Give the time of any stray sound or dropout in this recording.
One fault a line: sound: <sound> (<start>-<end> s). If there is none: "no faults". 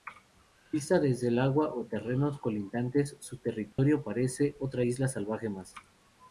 sound: dropout (3.7-3.8 s)